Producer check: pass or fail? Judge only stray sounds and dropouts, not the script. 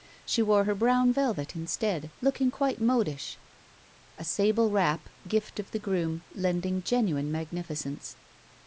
pass